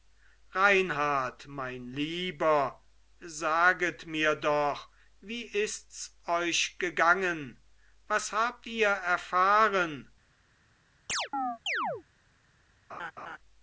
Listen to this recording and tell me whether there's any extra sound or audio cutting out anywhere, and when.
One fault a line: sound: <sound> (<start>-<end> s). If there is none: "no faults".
sound: chirp (11.1-12.0 s)
sound: laugh (12.9-13.4 s)